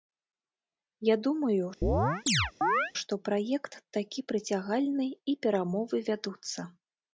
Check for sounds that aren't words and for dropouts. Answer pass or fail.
fail